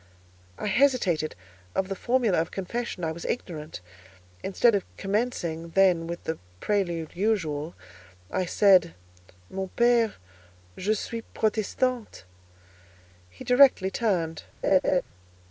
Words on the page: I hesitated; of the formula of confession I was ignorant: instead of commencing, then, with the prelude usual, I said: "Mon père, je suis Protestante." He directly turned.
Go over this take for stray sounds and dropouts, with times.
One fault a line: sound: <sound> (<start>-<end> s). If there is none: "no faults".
sound: laugh (14.6-15.0 s)